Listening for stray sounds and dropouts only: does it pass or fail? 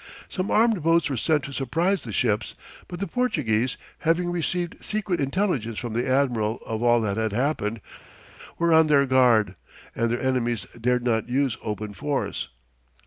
pass